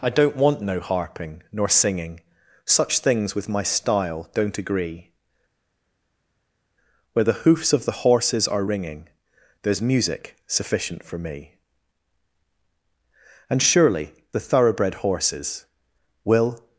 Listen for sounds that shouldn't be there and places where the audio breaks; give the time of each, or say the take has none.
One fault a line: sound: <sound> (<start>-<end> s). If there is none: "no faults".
no faults